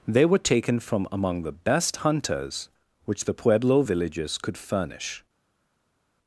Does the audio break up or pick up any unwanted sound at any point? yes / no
no